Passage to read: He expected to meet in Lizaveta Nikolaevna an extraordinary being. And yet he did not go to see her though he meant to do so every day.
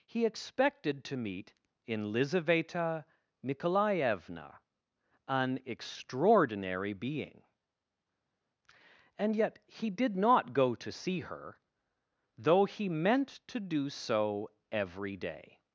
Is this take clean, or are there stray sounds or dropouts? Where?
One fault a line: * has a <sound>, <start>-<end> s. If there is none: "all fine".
all fine